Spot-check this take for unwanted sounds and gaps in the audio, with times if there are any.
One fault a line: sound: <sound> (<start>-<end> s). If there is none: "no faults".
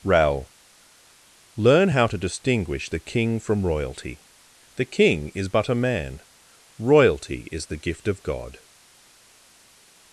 no faults